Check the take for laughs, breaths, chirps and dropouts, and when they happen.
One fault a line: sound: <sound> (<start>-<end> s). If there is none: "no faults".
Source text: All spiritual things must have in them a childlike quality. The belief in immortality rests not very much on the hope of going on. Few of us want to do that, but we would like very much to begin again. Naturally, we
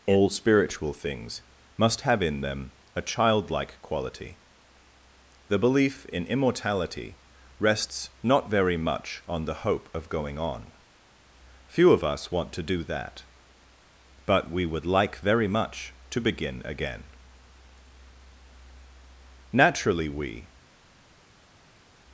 no faults